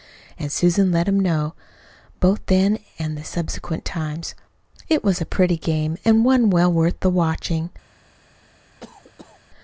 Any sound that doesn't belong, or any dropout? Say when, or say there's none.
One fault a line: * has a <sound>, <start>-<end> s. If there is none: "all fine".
* has a cough, 8.8-9.4 s